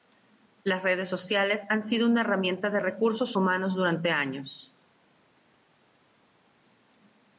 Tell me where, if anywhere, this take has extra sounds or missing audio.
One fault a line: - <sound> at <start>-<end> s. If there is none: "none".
none